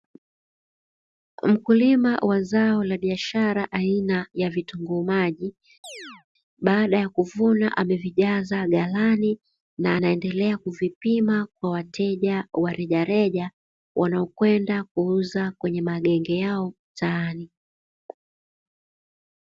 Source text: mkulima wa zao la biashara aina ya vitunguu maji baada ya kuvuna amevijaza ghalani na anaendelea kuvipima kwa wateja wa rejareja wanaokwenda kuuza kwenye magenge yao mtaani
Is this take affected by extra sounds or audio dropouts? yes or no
yes